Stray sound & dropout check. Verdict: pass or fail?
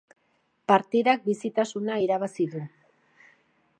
pass